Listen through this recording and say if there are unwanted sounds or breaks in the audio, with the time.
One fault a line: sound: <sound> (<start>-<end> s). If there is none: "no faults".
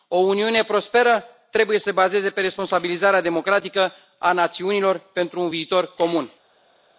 no faults